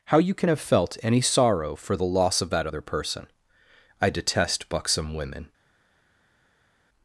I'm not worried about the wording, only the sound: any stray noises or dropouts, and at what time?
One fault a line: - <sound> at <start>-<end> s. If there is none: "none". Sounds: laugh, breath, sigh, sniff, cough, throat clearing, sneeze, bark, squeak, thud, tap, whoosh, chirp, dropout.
none